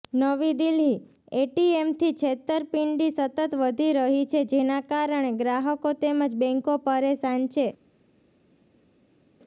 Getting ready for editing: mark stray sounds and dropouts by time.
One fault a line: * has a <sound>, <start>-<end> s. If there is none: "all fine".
all fine